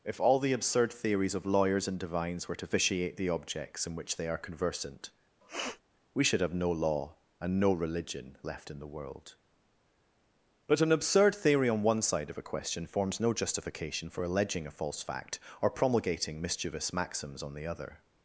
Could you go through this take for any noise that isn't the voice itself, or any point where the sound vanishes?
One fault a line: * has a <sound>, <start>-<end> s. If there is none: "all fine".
* has a sniff, 5.4-5.8 s